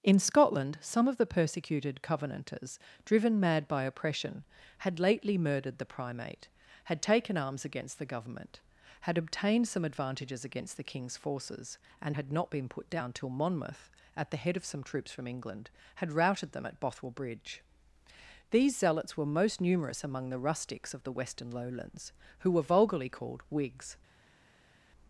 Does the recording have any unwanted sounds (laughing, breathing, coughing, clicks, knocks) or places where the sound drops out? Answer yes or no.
no